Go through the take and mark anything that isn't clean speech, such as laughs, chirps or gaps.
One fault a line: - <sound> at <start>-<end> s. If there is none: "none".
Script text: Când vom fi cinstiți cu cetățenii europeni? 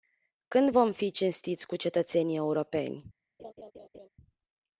- laugh at 3.4-4.1 s